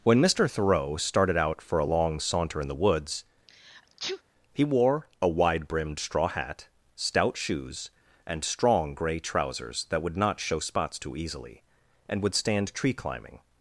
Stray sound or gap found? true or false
true